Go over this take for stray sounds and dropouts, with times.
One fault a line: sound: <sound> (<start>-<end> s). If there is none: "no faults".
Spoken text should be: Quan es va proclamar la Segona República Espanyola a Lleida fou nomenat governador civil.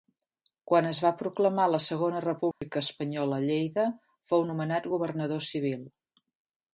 sound: dropout (2.5-2.6 s)